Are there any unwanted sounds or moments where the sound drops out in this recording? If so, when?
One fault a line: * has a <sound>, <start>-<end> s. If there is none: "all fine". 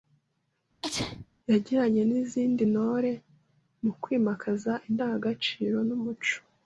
* has a sneeze, 0.8-1.3 s